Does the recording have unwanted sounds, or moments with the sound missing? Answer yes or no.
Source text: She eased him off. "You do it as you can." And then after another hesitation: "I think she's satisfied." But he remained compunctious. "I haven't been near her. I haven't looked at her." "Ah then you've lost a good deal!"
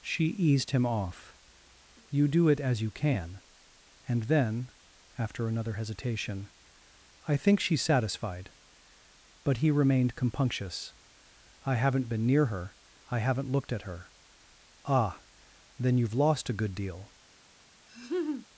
yes